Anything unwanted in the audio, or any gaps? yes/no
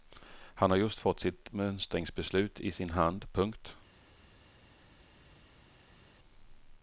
no